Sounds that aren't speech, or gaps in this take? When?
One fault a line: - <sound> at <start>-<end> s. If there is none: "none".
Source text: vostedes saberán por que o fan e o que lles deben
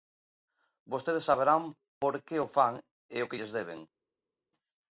none